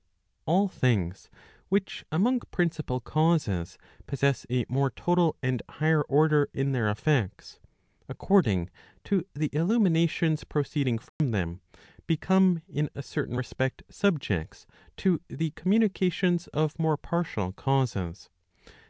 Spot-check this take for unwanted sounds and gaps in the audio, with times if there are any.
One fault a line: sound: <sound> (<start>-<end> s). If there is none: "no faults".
sound: dropout (11.1-11.2 s)